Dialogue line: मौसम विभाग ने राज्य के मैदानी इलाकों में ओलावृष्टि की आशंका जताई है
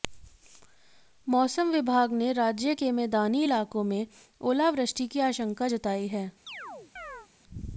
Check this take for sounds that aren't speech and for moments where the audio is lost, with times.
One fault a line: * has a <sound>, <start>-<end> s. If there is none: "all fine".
* has a chirp, 6.5-7.3 s